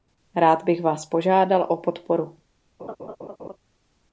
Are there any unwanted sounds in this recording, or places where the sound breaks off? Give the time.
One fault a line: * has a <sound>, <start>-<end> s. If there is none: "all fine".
* has a laugh, 2.8-3.6 s